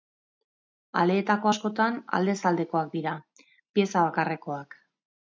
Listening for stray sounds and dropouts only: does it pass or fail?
pass